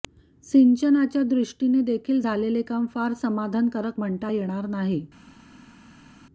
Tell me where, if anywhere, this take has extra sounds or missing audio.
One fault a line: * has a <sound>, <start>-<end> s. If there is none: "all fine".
all fine